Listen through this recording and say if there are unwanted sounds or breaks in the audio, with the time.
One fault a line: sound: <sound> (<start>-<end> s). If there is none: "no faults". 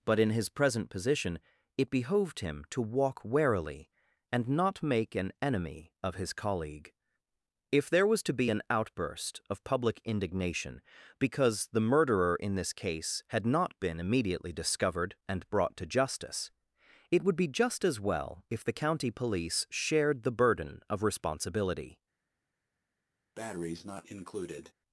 sound: breath (23.3-24.7 s)